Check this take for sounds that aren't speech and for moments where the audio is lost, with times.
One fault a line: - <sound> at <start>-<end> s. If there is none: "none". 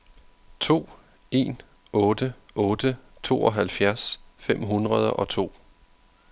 none